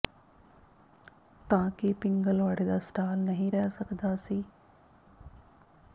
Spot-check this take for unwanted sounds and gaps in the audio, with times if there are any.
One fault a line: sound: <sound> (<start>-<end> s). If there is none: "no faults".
no faults